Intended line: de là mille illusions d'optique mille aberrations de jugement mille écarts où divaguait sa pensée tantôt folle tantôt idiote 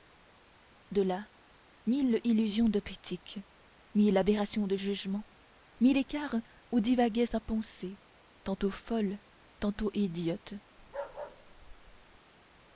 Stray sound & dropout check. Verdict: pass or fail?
fail